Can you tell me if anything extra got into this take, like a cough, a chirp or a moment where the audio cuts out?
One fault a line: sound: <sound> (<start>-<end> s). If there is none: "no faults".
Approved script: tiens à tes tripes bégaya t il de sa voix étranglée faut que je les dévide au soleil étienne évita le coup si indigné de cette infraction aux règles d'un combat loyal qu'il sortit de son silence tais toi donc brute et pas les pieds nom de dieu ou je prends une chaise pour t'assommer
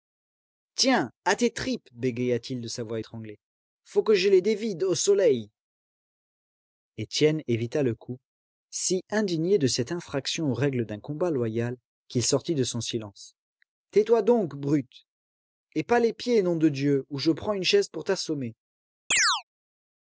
sound: chirp (19.1-19.4 s)